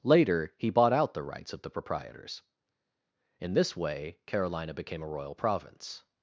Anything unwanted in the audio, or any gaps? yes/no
no